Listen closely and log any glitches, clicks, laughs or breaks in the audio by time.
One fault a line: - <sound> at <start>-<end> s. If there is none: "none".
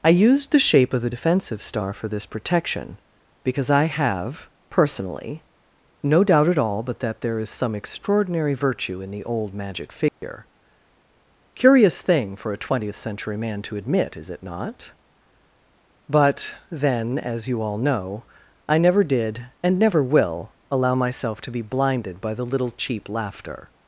- dropout at 10.1-10.2 s